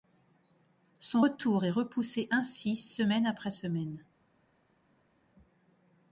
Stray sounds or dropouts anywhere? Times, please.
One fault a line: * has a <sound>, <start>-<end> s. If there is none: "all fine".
all fine